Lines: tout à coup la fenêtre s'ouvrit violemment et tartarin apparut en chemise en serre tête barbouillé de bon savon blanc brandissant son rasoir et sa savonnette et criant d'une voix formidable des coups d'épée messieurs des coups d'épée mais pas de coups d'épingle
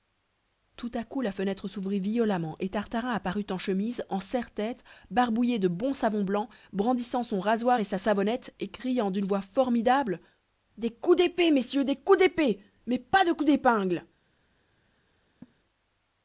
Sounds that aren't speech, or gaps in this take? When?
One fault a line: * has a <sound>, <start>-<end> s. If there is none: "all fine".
* has a laugh, 15.4-15.6 s